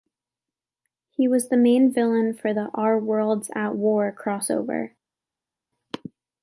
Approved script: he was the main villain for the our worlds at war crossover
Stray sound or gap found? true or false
false